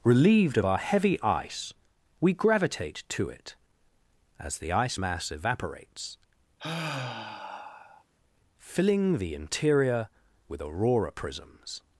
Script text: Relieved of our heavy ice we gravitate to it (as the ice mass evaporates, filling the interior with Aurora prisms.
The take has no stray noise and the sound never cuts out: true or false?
false